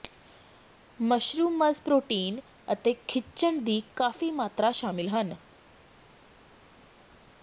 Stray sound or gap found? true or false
false